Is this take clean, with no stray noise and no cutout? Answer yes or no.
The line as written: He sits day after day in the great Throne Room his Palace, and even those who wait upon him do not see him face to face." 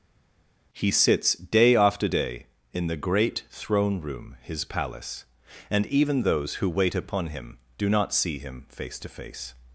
yes